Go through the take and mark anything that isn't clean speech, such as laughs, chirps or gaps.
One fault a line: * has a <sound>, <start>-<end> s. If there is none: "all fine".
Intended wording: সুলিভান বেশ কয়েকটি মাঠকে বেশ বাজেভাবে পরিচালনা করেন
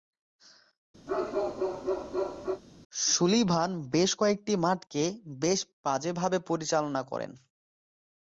* has a bark, 1.1-2.6 s